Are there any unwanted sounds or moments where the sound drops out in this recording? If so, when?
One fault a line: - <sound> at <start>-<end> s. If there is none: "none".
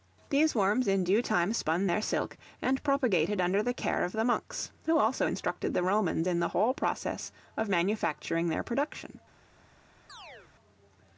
- chirp at 10.1-10.5 s